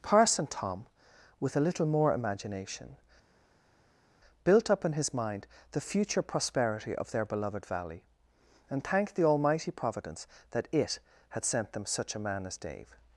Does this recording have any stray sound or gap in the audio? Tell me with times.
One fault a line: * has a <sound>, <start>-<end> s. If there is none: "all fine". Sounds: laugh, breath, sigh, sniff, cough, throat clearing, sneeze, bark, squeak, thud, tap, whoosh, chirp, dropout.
all fine